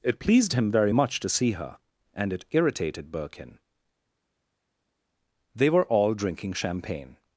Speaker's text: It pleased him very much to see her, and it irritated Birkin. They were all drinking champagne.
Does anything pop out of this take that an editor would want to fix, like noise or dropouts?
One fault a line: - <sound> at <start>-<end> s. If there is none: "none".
none